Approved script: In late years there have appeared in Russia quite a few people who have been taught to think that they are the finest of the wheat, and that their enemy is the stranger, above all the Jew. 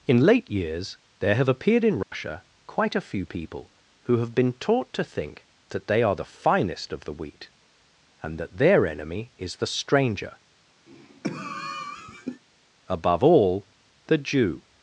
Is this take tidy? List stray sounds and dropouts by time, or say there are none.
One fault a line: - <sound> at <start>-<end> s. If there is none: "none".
- dropout at 2.0-2.1 s
- cough at 10.9-12.4 s